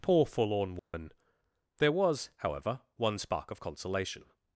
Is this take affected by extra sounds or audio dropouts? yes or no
yes